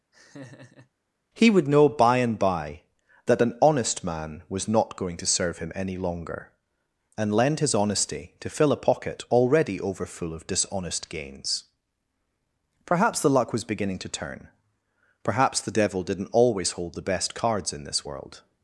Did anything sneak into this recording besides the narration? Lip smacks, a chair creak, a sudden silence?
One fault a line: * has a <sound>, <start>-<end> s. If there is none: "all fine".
* has a laugh, 0.1-0.9 s